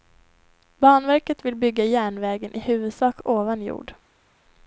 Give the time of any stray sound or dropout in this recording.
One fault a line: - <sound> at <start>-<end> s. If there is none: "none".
none